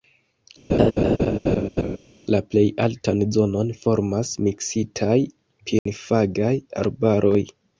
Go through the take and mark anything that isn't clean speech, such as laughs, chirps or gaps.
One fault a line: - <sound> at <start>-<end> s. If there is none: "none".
- laugh at 0.7-2.0 s
- dropout at 5.8-5.9 s